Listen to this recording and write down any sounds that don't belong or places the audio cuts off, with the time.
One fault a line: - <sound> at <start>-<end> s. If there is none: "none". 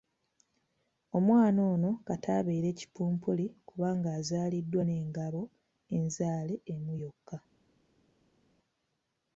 none